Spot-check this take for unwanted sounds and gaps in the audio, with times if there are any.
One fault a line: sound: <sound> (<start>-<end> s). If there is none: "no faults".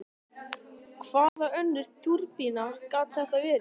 sound: dropout (1.3-1.4 s)